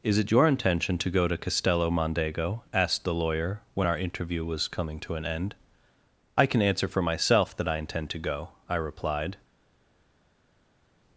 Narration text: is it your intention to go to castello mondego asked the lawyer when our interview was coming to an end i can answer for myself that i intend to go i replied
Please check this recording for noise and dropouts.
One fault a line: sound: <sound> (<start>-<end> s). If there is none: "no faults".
no faults